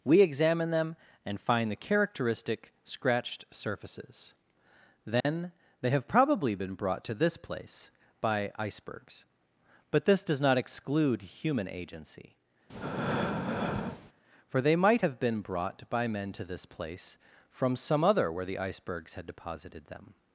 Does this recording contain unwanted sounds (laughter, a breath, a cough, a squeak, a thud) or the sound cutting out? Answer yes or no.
yes